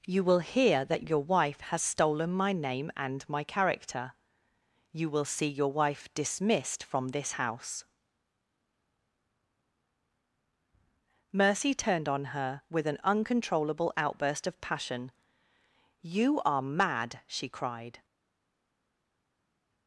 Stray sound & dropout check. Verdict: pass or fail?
pass